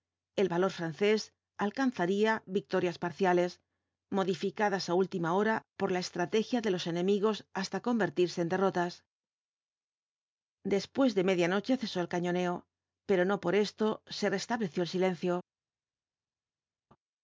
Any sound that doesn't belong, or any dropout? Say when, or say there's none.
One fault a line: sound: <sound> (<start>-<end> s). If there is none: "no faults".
no faults